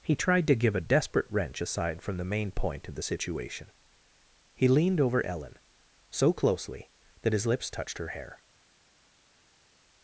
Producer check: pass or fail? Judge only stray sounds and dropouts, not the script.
pass